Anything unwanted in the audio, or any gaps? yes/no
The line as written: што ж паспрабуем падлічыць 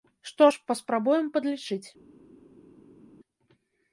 no